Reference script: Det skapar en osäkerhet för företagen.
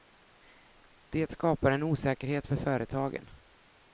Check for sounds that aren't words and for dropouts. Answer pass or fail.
pass